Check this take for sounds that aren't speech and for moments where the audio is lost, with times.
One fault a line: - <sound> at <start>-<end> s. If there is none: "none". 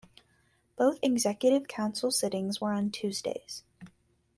none